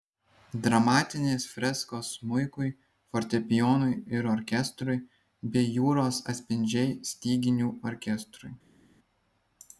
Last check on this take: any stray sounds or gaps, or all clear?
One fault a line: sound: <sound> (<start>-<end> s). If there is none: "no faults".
no faults